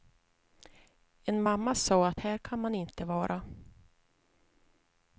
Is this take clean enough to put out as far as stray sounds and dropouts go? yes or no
yes